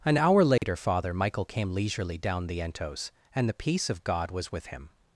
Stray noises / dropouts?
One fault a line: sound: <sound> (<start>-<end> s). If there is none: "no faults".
sound: dropout (0.6-0.6 s)